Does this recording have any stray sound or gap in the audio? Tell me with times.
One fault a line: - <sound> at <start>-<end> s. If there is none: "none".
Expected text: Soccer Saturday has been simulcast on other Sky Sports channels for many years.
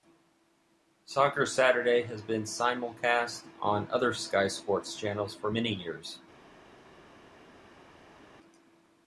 none